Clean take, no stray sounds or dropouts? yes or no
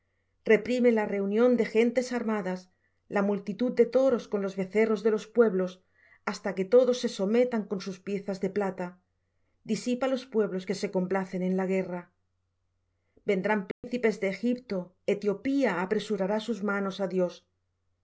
no